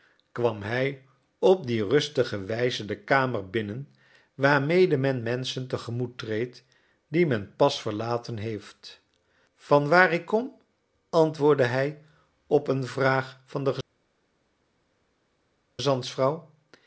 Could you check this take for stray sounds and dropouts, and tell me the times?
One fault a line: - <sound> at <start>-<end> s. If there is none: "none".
none